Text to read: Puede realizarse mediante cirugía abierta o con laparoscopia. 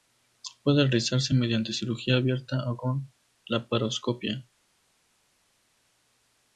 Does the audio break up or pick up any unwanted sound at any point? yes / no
no